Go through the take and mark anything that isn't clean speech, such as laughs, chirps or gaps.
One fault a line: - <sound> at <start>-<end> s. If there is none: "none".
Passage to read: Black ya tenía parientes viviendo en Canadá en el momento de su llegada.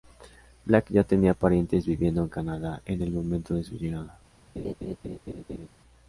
- laugh at 4.6-5.7 s